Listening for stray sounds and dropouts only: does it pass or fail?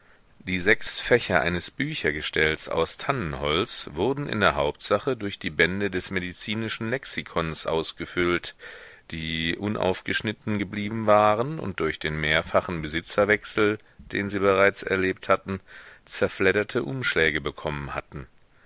pass